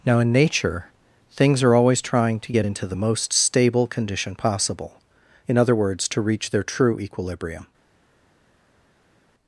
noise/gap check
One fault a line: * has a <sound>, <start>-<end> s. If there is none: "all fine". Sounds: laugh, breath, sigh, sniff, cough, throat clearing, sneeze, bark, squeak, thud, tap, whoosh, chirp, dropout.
all fine